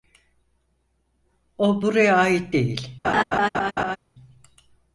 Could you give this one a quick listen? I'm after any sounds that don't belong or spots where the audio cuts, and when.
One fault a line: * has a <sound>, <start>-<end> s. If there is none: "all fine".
* has a laugh, 3.0-4.0 s